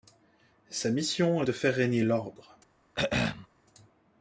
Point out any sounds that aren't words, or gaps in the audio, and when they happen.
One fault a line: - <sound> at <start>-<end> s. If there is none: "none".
- throat clearing at 2.9-3.5 s